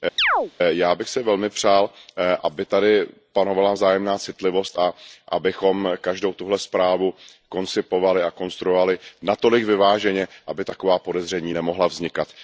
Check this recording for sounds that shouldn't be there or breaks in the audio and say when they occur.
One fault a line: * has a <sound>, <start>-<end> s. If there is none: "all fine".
* has a chirp, 0.2-0.5 s